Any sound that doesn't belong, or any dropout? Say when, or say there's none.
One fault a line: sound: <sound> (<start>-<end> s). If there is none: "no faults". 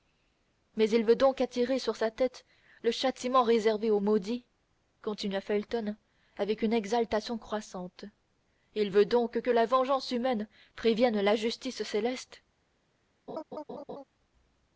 sound: laugh (13.3-14.0 s)